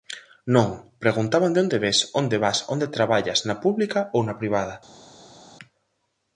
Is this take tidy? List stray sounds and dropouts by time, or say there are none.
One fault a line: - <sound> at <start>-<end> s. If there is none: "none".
none